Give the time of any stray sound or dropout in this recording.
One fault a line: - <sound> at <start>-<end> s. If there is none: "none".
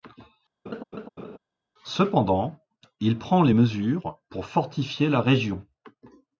- laugh at 0.7-1.4 s